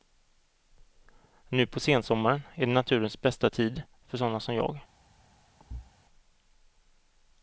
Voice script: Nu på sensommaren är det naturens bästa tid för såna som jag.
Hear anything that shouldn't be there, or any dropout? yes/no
yes